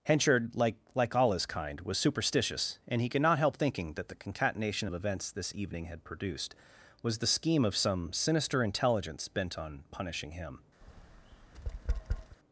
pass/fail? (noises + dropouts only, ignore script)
fail